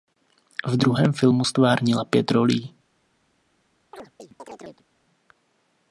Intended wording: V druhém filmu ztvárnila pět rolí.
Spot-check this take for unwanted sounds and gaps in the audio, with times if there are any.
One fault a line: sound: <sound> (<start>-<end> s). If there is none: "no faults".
sound: chirp (3.9-4.9 s)